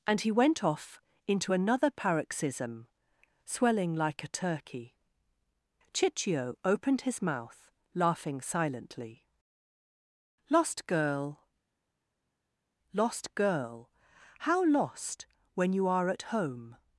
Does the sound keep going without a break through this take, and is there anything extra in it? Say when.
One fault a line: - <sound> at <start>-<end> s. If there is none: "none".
none